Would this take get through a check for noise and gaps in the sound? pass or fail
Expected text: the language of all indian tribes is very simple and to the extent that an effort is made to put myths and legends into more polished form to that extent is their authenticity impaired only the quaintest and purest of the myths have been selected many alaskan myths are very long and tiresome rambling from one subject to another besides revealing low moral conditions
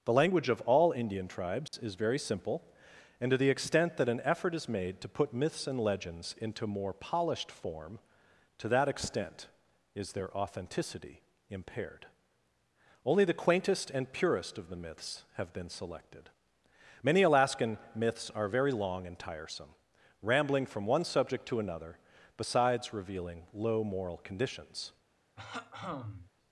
fail